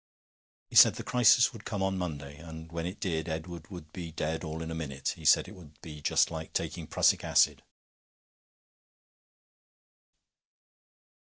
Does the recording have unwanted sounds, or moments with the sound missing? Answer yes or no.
no